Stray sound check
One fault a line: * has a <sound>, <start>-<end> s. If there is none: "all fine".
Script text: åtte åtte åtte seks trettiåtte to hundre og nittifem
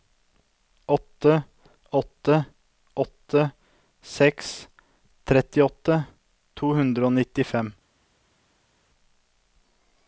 all fine